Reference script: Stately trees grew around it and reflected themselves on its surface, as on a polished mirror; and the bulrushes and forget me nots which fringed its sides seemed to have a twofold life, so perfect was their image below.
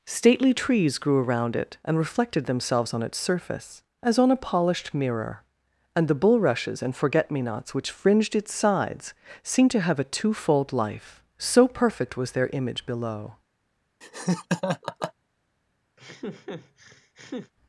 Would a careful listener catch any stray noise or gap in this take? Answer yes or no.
yes